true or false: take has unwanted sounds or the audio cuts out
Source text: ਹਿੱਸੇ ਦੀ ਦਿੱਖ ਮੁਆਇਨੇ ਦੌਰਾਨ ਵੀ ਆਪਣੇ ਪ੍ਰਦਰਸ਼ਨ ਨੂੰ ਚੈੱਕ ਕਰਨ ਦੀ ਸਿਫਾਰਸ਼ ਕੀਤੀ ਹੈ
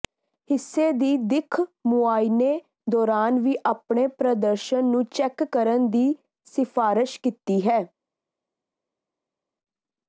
false